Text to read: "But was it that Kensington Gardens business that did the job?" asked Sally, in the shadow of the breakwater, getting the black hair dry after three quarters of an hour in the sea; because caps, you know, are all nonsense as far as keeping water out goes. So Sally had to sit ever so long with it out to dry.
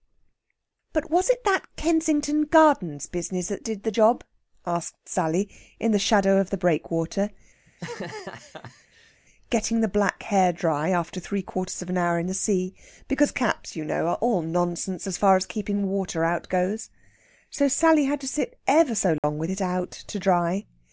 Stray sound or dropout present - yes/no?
yes